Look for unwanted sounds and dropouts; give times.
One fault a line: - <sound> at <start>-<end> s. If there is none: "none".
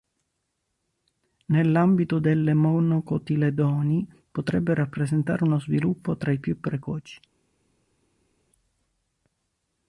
none